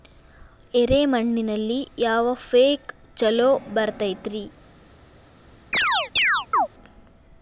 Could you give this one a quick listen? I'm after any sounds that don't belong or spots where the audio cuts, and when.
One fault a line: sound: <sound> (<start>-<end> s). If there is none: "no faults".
sound: chirp (5.7-6.7 s)